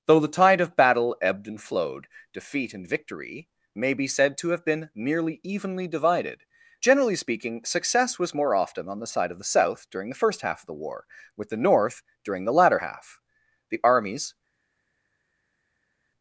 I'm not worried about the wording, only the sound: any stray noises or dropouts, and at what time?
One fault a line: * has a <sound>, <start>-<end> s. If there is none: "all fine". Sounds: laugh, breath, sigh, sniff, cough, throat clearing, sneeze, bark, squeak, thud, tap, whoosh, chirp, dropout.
all fine